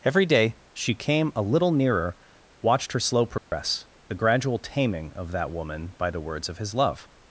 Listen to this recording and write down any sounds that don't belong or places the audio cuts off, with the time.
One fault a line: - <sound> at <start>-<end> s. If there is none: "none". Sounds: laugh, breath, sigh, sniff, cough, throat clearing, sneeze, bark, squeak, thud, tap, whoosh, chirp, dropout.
- dropout at 3.4-3.5 s